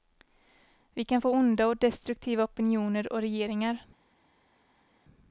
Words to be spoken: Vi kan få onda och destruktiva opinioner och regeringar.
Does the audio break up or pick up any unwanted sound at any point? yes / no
no